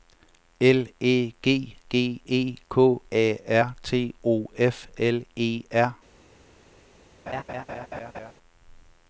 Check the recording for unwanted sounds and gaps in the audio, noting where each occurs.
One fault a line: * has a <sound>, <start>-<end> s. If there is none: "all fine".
* has a laugh, 7.3-8.3 s